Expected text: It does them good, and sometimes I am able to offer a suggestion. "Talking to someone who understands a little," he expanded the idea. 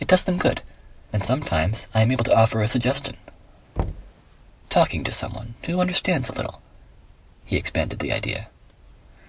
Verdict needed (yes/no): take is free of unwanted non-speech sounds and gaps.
no